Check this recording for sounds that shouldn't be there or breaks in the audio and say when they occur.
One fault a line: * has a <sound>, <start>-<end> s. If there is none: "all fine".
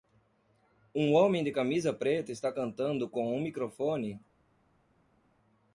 all fine